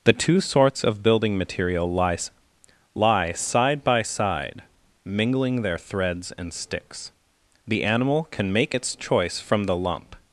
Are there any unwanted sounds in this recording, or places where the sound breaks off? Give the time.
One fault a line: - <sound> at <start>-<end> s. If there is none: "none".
none